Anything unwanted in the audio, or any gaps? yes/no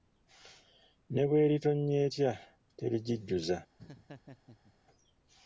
yes